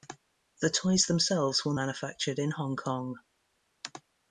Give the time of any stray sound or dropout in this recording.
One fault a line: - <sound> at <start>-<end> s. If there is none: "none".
none